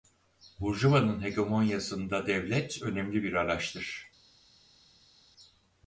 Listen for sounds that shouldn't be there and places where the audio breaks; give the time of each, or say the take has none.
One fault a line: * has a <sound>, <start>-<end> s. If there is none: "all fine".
all fine